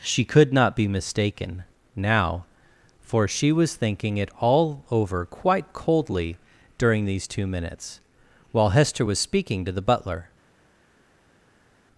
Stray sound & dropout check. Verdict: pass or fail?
pass